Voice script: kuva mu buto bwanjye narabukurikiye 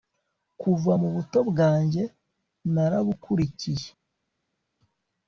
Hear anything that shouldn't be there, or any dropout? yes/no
no